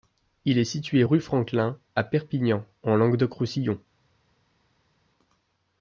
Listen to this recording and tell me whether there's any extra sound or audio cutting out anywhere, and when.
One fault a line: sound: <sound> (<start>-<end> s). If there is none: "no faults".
no faults